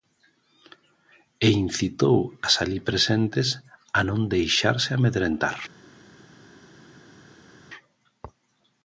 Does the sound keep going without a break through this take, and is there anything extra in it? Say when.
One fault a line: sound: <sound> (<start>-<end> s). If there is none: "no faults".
no faults